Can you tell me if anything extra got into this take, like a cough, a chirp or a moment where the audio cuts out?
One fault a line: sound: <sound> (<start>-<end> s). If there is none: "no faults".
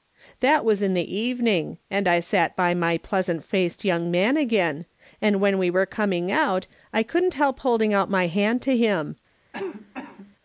sound: cough (9.5-10.4 s)